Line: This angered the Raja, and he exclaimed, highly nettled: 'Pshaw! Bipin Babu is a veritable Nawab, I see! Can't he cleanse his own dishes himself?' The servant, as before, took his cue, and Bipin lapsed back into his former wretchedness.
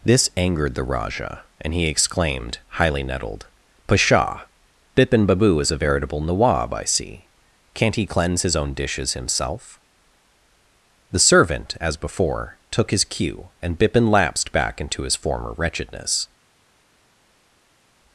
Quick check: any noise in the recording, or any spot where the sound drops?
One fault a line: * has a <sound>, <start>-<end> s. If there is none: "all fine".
all fine